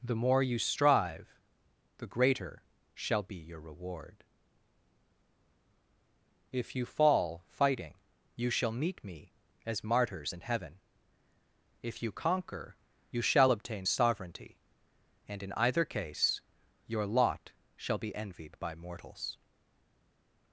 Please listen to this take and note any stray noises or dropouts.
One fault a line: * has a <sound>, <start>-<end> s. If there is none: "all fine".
all fine